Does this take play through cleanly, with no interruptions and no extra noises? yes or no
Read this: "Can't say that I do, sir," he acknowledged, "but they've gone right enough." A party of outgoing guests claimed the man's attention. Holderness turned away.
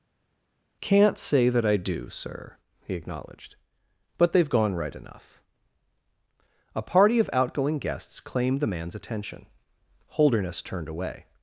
yes